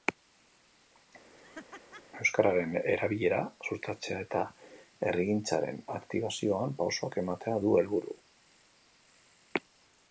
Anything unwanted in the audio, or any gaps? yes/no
yes